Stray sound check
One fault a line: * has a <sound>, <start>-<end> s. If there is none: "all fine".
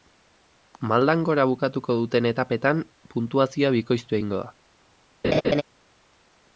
* has a laugh, 5.2-5.6 s